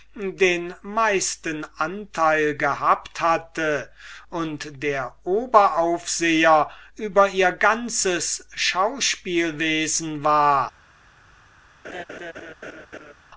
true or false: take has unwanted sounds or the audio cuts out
true